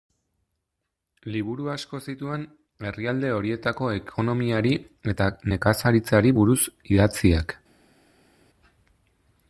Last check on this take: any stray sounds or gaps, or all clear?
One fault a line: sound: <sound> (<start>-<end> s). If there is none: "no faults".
no faults